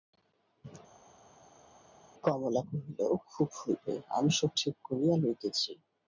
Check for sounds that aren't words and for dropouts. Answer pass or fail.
pass